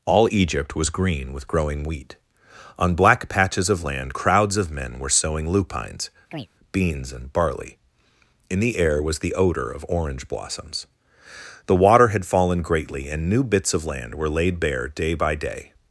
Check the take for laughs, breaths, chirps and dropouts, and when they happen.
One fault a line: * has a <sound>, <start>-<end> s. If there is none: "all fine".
* has a chirp, 6.3-6.5 s